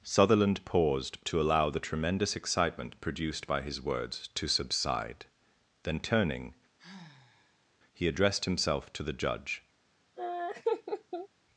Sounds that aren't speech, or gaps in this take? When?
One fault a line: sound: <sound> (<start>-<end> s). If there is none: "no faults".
sound: sigh (6.8-7.7 s)
sound: laugh (10.2-11.3 s)